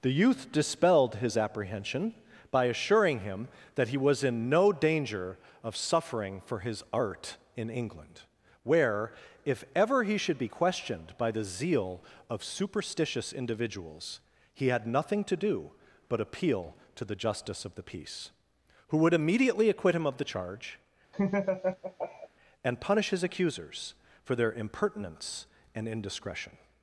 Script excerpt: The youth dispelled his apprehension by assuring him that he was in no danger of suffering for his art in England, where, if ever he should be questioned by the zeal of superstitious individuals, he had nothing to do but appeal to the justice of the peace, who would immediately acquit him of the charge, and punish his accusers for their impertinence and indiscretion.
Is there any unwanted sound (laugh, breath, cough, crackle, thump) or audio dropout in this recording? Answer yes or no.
yes